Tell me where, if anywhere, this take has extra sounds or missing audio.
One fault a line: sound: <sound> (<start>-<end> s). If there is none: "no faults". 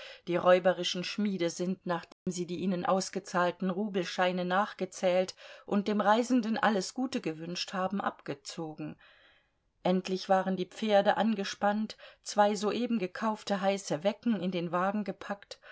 sound: dropout (2.1-2.3 s)